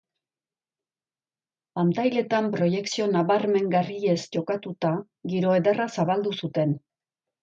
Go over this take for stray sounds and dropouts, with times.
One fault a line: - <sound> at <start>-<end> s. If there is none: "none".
none